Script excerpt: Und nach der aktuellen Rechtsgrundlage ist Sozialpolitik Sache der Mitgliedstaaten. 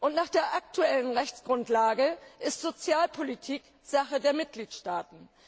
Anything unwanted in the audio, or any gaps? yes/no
no